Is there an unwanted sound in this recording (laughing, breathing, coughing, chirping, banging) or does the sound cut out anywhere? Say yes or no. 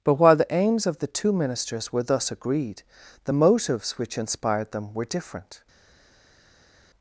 no